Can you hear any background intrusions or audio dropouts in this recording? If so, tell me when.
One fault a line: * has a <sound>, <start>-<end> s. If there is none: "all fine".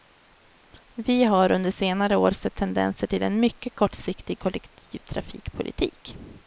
all fine